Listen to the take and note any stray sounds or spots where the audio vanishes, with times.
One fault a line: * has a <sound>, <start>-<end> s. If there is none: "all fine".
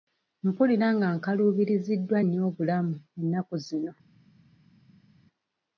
all fine